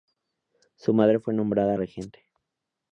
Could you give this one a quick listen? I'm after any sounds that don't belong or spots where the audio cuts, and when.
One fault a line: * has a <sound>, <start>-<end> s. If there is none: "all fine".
all fine